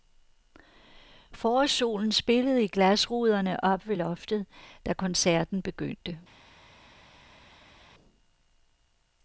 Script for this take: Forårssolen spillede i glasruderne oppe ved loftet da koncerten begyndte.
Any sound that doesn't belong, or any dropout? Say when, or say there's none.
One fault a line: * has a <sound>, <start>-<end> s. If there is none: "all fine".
all fine